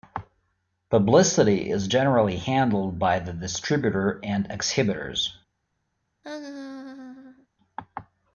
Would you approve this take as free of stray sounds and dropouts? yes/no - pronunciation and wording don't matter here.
no